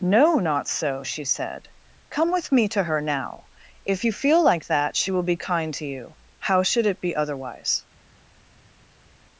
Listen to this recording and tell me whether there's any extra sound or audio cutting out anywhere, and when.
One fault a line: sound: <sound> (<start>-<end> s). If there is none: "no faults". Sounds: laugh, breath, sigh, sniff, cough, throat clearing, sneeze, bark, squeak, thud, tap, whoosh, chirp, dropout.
no faults